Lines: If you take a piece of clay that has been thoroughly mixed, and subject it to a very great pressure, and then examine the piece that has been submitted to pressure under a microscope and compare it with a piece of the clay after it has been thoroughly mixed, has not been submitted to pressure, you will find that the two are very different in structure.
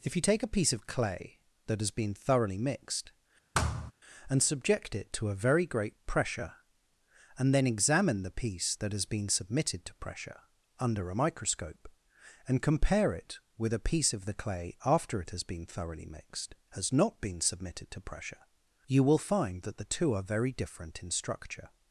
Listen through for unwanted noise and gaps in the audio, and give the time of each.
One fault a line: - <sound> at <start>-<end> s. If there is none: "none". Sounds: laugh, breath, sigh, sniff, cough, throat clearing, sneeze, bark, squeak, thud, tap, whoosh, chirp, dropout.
- thud at 3.5-3.9 s